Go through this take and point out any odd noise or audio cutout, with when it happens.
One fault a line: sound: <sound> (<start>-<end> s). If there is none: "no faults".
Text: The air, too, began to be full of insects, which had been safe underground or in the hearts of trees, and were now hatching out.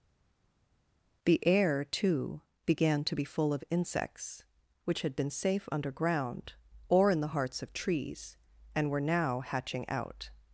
no faults